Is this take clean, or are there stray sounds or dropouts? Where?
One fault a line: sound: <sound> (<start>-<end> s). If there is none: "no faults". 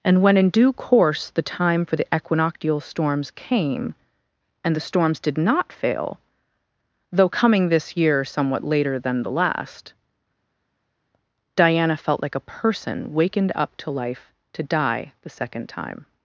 no faults